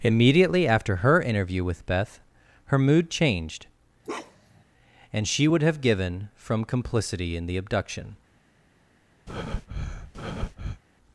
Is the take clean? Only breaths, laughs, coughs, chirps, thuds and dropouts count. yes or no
no